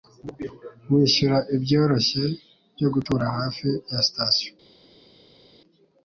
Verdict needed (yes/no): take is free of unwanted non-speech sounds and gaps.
yes